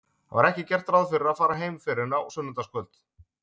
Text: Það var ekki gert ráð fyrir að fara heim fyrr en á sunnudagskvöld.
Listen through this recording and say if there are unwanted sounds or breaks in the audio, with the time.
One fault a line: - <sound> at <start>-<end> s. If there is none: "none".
none